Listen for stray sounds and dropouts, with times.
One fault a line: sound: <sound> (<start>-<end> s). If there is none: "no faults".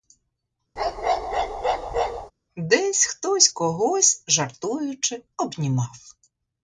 sound: bark (0.8-2.3 s)